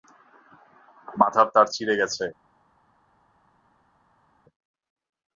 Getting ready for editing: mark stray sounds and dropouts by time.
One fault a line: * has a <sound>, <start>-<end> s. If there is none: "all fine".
all fine